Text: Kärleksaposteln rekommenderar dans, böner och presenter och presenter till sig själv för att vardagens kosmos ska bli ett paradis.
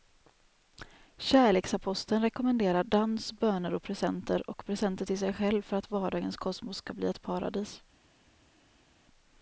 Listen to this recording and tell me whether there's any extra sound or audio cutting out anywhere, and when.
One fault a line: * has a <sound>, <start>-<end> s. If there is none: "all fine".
all fine